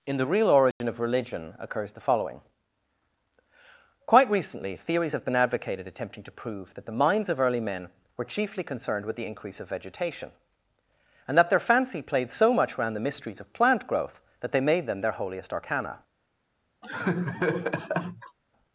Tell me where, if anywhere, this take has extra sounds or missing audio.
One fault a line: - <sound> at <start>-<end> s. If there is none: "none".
- dropout at 0.7-0.8 s
- laugh at 16.8-18.4 s